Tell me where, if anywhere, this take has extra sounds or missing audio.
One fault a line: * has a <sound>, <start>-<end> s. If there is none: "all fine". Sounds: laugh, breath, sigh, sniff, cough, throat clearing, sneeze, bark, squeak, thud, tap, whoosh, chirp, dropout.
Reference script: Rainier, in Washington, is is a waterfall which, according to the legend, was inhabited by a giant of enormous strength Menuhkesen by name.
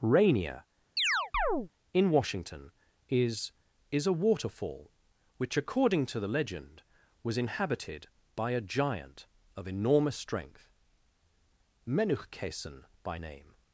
* has a chirp, 1.0-1.7 s